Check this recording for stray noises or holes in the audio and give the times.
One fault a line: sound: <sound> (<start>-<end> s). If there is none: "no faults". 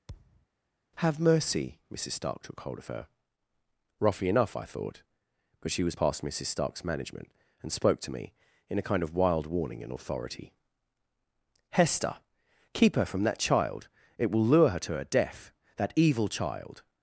sound: thud (0.1-0.5 s)